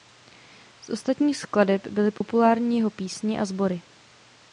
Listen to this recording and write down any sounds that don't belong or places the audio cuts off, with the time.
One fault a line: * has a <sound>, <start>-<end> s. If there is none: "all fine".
* has a dropout, 2.2-2.2 s